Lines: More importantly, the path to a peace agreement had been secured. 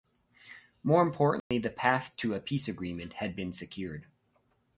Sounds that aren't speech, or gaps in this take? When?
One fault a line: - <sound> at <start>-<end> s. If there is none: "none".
- dropout at 1.4-1.5 s